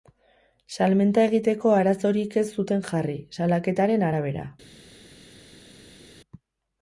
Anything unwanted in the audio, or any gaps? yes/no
no